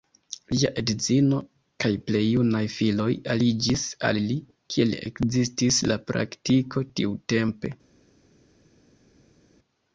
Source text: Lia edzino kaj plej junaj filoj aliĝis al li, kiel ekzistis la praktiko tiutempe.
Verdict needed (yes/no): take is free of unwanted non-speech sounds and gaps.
yes